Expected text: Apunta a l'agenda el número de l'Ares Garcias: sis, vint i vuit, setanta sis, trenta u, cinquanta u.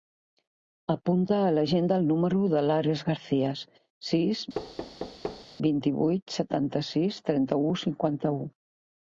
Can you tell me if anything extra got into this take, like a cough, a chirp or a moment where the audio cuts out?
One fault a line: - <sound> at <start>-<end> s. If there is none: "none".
- thud at 4.5-5.5 s